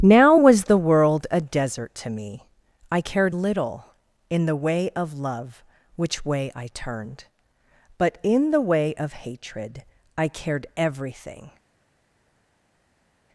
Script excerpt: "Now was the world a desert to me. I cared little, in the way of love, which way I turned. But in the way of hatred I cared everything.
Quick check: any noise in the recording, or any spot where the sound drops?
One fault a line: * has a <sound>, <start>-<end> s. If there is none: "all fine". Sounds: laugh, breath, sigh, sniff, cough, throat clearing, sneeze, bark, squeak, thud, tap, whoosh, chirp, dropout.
all fine